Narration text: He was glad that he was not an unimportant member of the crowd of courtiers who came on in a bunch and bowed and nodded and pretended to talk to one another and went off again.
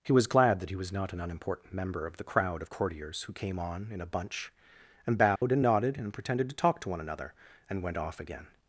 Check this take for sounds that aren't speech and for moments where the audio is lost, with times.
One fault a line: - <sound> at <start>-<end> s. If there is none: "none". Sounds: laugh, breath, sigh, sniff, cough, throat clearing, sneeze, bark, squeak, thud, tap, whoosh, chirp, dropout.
- dropout at 5.4-5.4 s